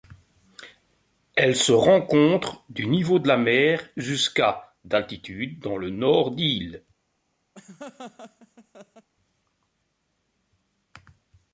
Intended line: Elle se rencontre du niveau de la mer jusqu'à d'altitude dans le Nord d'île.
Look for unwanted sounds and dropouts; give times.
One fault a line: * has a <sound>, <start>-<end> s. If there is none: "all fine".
* has a laugh, 7.5-9.1 s